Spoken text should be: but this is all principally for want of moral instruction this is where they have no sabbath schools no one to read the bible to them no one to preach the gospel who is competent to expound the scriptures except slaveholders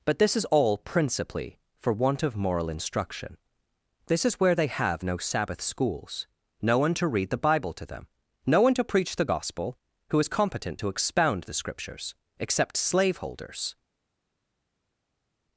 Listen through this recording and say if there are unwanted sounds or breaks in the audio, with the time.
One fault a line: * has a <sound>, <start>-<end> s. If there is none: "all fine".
all fine